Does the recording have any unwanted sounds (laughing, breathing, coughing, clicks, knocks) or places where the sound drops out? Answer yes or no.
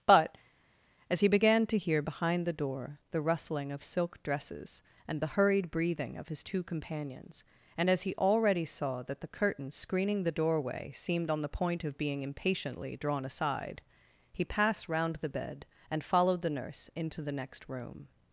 no